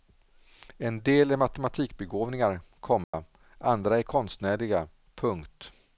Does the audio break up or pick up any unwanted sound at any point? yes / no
yes